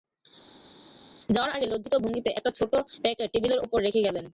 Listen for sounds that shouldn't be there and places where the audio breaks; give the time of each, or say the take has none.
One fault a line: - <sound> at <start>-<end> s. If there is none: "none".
none